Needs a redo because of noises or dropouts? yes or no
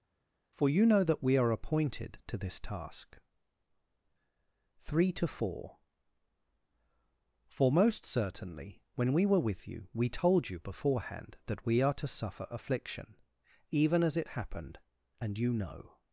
no